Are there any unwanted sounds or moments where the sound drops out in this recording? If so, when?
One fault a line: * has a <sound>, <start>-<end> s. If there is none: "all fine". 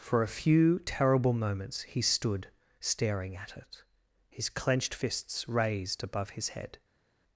all fine